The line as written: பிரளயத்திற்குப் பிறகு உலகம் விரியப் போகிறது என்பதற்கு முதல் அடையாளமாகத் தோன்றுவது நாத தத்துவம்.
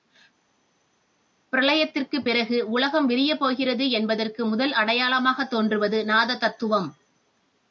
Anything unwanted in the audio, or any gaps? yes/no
no